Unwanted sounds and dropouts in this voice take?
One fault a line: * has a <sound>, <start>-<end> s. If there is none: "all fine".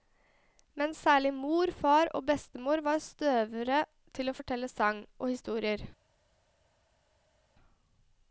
all fine